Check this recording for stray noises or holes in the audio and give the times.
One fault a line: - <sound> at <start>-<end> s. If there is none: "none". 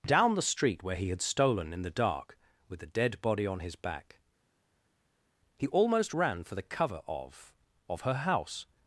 none